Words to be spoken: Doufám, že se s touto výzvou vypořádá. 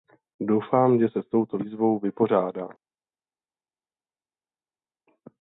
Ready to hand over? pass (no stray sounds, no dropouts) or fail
pass